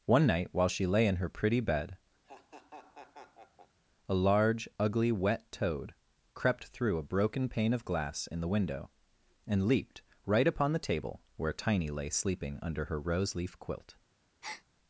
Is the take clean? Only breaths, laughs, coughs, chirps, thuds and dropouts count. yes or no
no